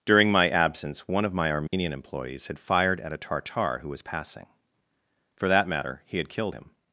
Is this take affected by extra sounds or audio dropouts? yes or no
yes